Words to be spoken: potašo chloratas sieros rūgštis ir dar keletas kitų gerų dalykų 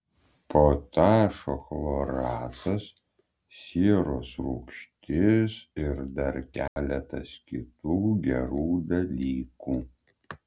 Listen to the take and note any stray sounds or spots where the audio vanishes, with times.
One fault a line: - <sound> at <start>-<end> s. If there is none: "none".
- dropout at 6.7-6.8 s